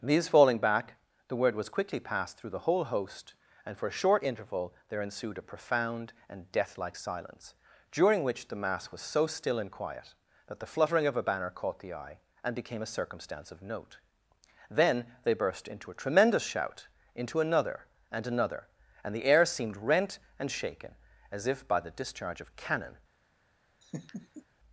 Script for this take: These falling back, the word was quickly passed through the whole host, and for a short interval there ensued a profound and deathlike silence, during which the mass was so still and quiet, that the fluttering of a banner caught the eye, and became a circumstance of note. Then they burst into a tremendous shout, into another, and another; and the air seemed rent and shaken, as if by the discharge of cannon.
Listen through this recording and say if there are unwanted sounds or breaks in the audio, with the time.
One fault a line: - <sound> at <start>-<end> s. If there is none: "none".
- laugh at 23.8-24.4 s